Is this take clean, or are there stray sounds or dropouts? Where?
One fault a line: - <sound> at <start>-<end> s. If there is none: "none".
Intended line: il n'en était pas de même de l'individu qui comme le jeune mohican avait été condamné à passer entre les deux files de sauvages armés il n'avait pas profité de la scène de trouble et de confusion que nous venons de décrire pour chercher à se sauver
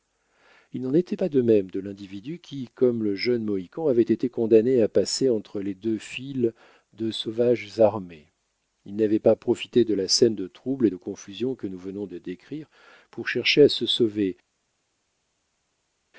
none